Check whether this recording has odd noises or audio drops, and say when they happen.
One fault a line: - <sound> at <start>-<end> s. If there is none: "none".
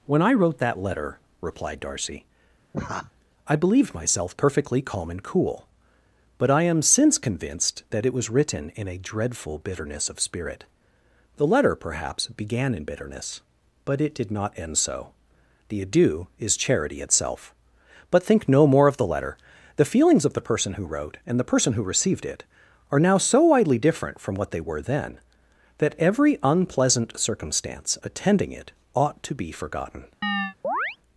- laugh at 2.7-3.1 s
- chirp at 30.2-31.0 s